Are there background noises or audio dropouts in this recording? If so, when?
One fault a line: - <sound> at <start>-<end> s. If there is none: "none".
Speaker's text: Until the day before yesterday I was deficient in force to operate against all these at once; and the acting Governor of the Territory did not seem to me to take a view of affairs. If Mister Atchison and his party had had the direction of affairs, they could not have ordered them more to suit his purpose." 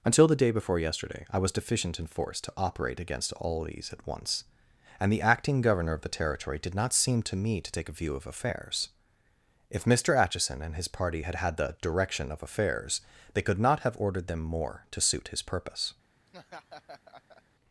- laugh at 16.3-17.4 s